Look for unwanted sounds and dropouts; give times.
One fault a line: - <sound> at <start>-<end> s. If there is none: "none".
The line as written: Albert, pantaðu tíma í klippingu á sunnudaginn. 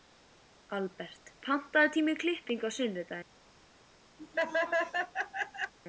- laugh at 4.2-5.7 s